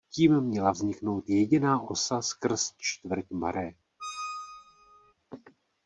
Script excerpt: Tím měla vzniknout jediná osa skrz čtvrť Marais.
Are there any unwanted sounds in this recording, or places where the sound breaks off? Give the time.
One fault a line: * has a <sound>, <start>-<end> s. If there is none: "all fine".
* has a squeak, 4.0-5.1 s